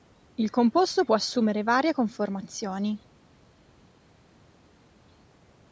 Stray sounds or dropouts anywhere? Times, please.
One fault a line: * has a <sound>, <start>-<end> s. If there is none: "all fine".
all fine